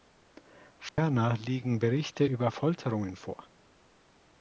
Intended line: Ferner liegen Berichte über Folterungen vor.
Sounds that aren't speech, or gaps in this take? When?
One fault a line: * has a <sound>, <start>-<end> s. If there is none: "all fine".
* has a dropout, 0.9-1.0 s